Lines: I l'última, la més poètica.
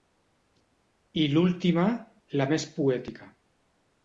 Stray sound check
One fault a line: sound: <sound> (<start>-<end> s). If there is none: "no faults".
no faults